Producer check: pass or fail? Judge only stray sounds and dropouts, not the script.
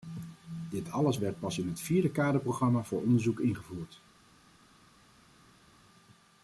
pass